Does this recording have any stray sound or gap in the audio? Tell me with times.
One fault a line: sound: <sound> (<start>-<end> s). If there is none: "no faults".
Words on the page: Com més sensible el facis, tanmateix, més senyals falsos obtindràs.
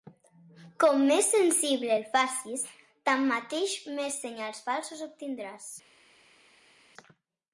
no faults